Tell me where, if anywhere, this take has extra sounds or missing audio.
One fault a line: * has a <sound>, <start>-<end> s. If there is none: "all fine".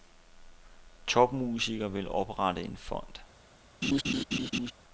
* has a laugh, 3.8-4.7 s